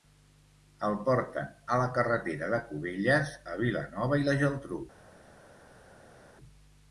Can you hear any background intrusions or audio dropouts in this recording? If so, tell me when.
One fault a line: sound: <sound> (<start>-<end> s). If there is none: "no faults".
no faults